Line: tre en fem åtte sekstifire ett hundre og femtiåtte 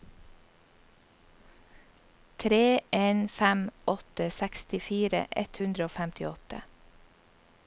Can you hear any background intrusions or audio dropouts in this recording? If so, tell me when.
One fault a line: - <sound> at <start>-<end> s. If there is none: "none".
none